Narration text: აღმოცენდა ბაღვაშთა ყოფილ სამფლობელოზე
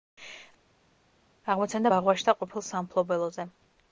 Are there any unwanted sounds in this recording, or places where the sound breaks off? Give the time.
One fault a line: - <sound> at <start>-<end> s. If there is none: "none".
none